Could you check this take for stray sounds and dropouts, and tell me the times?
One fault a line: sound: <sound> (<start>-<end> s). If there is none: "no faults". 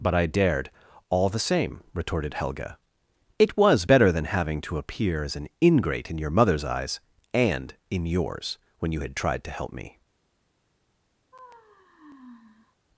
sound: sigh (11.3-12.8 s)